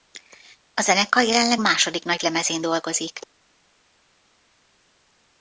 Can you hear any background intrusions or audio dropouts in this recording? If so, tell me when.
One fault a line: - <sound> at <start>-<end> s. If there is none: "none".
none